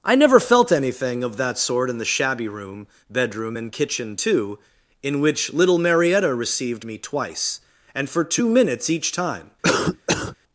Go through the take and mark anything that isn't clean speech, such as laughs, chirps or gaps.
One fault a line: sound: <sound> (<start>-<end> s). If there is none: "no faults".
sound: cough (9.6-10.4 s)